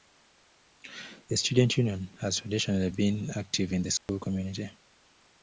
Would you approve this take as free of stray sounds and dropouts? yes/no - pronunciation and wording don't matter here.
no